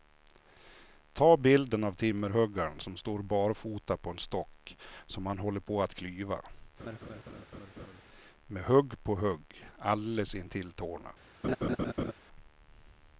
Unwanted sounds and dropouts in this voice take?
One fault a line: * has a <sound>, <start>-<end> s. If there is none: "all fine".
* has a laugh, 6.8-8.0 s
* has a laugh, 11.4-12.1 s